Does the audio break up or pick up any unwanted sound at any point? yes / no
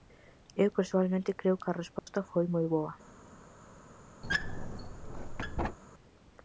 yes